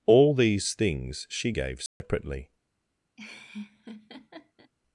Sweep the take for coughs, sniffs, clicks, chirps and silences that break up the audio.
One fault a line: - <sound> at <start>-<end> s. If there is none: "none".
- dropout at 1.9-2.0 s
- laugh at 3.2-4.7 s